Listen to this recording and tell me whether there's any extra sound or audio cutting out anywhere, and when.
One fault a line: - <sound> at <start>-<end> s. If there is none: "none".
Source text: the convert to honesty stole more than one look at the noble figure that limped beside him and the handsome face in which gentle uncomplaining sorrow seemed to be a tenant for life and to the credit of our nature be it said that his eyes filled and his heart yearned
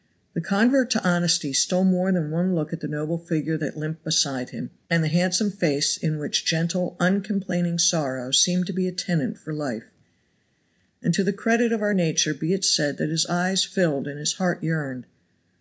none